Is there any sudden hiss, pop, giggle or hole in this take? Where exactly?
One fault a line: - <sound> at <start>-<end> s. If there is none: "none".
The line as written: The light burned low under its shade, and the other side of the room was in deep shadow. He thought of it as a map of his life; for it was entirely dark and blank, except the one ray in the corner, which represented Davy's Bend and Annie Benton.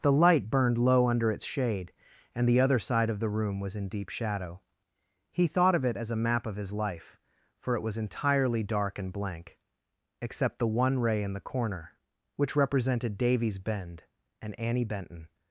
none